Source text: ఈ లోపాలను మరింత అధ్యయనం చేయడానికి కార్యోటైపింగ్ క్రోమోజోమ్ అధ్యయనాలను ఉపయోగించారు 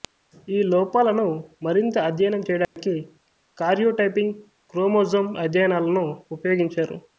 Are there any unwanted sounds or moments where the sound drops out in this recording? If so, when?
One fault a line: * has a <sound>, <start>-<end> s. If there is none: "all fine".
* has a dropout, 2.6-2.8 s